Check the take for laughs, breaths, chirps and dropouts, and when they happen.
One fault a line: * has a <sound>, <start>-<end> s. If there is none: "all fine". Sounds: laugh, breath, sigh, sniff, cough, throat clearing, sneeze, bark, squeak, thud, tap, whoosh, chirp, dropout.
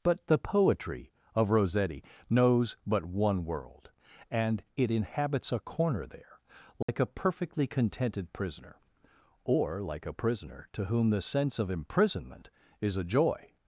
* has a dropout, 6.8-6.9 s